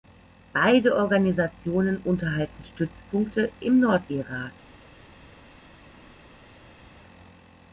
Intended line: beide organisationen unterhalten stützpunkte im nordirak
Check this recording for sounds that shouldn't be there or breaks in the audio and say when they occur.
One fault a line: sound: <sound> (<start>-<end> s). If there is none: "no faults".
no faults